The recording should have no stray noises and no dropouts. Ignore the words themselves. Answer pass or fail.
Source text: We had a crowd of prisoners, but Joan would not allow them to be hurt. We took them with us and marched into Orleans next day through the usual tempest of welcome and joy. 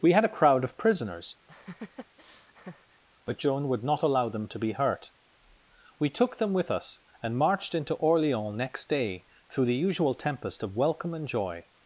fail